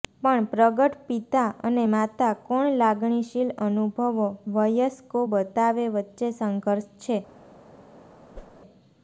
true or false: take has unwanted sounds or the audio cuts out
true